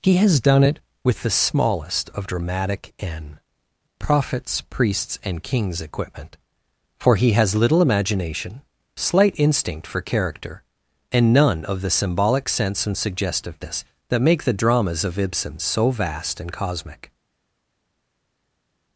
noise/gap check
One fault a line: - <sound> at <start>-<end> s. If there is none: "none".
none